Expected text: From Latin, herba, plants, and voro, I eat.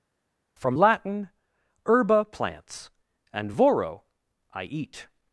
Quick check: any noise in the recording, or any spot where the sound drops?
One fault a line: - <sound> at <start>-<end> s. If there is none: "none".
none